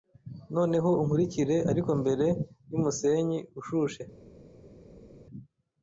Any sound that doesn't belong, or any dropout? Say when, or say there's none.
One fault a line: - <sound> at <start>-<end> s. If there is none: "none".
none